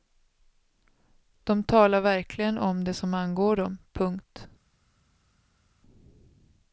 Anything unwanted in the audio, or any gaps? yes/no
no